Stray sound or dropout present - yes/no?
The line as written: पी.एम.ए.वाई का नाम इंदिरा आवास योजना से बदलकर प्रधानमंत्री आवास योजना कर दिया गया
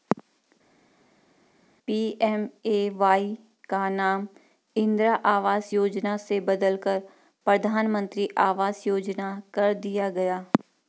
no